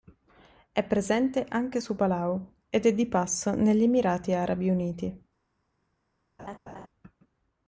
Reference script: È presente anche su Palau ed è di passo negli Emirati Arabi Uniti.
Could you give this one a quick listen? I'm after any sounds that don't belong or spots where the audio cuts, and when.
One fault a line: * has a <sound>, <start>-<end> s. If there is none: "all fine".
* has a laugh, 6.4-6.9 s